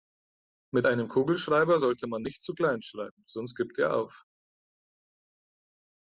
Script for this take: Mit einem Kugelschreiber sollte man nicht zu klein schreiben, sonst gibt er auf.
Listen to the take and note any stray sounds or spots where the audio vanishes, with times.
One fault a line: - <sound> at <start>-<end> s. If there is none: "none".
none